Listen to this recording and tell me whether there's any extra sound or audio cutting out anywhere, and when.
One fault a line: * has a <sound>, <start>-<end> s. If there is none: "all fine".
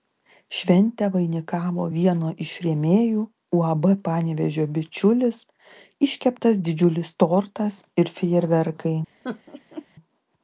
* has a laugh, 9.2-9.9 s